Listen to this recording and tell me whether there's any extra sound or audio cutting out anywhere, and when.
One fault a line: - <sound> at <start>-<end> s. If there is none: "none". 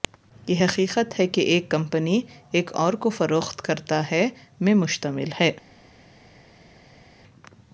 none